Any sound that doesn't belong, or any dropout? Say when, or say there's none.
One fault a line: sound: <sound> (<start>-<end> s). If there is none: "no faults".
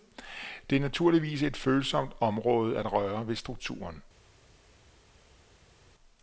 no faults